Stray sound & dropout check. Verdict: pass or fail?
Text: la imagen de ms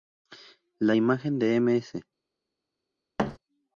fail